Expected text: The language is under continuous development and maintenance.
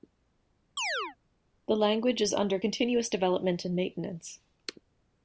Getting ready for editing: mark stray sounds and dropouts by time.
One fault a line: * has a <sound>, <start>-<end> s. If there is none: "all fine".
* has a chirp, 0.8-1.2 s